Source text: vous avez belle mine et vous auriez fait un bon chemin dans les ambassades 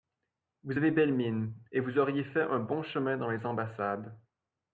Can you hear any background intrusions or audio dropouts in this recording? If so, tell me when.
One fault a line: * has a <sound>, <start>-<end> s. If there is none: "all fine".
all fine